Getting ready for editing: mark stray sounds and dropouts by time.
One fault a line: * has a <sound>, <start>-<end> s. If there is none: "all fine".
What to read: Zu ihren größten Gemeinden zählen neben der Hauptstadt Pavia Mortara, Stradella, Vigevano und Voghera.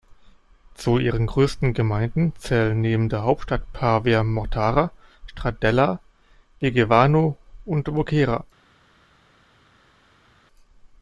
all fine